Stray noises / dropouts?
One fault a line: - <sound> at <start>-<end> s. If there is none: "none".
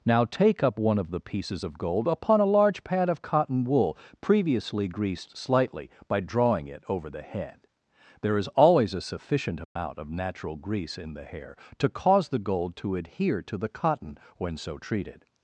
- dropout at 9.6-9.8 s